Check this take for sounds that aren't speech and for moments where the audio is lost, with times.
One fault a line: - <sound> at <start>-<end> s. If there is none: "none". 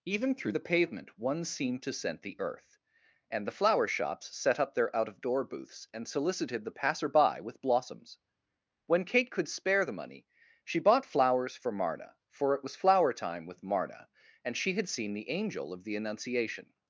none